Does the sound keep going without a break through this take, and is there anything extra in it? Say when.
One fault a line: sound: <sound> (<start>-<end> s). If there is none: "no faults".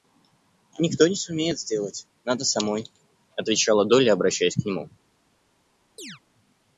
sound: chirp (6.0-6.2 s)